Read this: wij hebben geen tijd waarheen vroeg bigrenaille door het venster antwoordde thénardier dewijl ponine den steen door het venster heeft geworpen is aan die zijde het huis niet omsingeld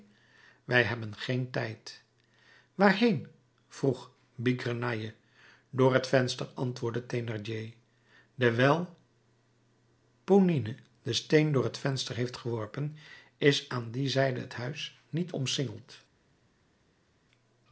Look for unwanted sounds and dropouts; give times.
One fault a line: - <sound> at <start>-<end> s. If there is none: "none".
none